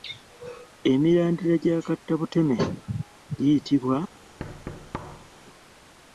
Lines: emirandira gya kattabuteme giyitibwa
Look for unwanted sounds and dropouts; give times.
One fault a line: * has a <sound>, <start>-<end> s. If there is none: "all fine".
* has a thud, 4.4-5.3 s